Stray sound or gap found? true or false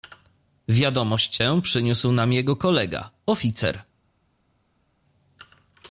false